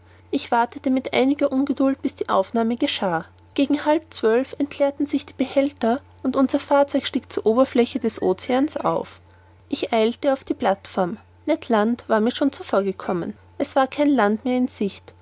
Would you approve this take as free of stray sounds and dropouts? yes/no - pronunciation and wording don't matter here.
yes